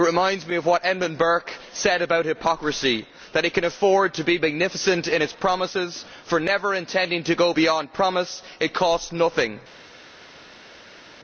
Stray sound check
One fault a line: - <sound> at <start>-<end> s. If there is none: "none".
none